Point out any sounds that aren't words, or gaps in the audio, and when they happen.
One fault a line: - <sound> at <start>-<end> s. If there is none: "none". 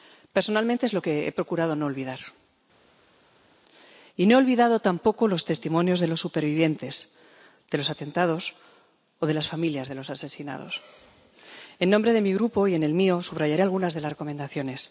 none